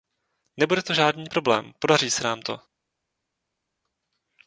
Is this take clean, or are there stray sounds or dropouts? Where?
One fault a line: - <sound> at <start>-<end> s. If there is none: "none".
none